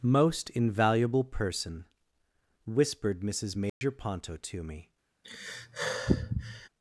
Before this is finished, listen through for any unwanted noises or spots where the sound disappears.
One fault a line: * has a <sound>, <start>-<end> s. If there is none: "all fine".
* has a dropout, 3.7-3.8 s
* has a sigh, 5.2-6.7 s